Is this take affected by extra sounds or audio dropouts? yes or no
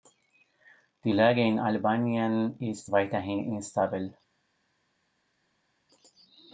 no